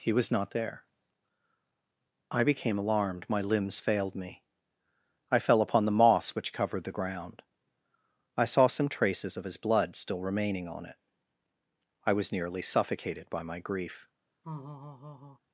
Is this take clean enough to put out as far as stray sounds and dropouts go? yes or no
no